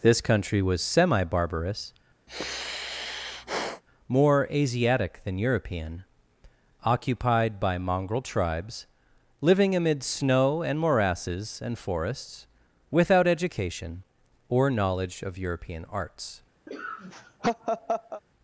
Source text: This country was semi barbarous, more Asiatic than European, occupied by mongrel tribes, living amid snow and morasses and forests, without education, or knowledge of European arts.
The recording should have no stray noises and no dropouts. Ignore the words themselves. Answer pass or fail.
fail